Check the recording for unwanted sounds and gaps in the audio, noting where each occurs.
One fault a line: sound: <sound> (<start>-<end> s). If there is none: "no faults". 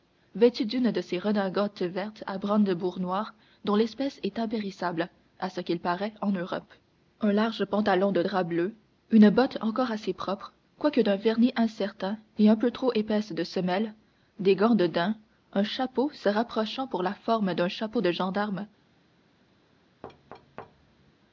sound: thud (20.0-21.1 s)